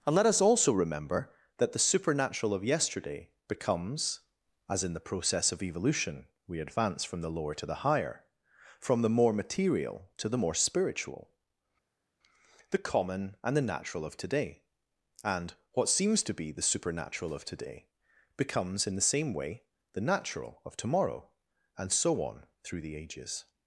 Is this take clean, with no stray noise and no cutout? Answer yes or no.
yes